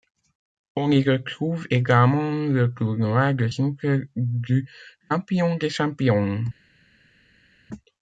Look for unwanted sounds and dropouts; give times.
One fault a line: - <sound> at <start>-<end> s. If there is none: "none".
none